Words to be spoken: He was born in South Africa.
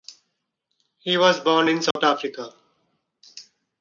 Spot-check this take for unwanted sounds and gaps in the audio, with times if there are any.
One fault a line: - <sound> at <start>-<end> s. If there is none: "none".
- dropout at 1.9-2.0 s